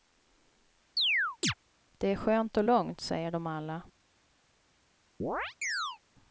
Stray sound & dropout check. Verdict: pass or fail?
fail